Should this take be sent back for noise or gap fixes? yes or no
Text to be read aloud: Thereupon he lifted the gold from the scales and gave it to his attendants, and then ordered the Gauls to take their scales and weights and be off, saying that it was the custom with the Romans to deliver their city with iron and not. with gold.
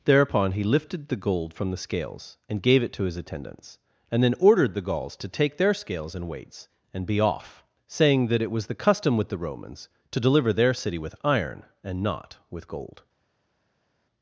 no